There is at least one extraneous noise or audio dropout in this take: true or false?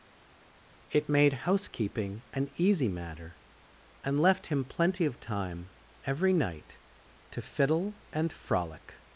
false